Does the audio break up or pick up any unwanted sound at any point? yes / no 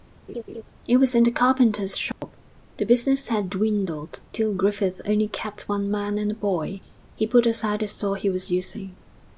yes